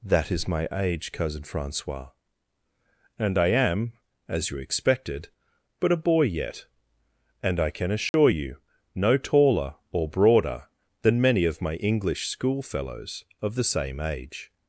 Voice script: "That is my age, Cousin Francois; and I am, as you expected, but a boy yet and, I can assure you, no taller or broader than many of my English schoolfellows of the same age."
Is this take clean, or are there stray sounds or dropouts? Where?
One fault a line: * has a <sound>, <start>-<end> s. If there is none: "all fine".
* has a dropout, 8.1-8.1 s